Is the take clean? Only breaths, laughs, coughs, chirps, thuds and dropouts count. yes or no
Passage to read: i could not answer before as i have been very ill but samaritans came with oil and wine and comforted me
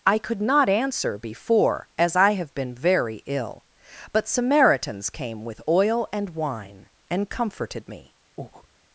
no